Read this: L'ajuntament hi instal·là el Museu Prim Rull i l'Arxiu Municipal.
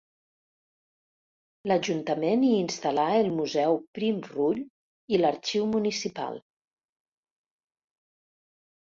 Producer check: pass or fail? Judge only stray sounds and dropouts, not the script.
pass